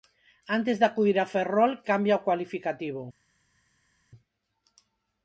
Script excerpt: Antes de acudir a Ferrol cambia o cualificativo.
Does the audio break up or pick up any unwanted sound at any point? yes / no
no